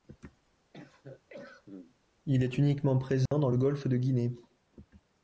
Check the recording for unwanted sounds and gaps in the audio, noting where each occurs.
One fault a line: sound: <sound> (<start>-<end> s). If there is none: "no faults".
sound: cough (0.7-2.0 s)
sound: dropout (3.3-3.3 s)